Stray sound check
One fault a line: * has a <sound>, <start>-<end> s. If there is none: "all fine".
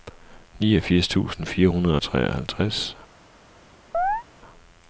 * has a chirp, 3.9-4.2 s